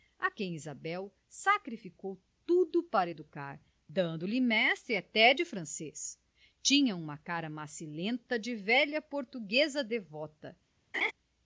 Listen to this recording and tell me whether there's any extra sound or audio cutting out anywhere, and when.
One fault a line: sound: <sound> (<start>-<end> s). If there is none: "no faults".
sound: laugh (10.9-11.1 s)